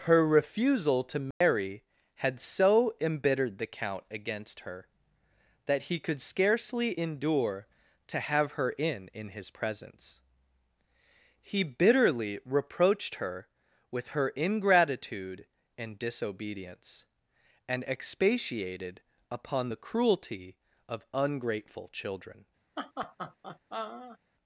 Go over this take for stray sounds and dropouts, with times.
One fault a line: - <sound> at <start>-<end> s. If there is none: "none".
- dropout at 1.3-1.4 s
- laugh at 22.8-24.2 s